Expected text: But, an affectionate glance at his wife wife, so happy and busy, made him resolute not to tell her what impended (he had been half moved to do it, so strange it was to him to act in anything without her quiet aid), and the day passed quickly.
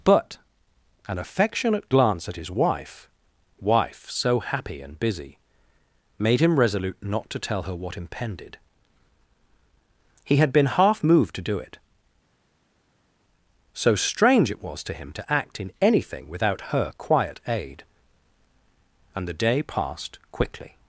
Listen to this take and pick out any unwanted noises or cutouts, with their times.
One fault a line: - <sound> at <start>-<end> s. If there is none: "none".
none